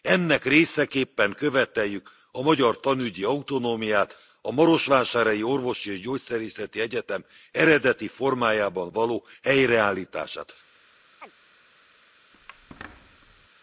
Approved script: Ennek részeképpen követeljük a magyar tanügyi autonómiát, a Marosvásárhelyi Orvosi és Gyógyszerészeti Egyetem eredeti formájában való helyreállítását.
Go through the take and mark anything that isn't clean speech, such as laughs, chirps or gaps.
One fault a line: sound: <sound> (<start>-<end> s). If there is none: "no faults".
sound: chirp (11.2-11.3 s)
sound: squeak (12.3-13.5 s)